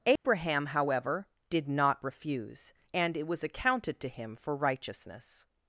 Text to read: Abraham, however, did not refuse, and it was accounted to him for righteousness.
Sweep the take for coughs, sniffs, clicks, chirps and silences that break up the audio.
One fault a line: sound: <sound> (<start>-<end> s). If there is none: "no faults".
sound: dropout (0.2-0.2 s)